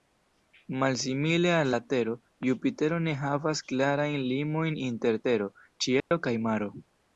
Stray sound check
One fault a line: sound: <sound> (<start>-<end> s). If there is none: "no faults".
sound: dropout (6.0-6.1 s)